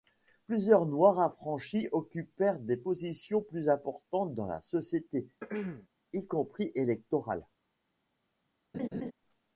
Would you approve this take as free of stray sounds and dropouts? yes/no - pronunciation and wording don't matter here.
no